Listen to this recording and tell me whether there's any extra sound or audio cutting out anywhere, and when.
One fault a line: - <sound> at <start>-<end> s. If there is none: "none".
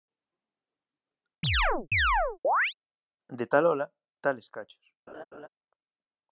- chirp at 1.4-2.7 s
- laugh at 5.1-5.5 s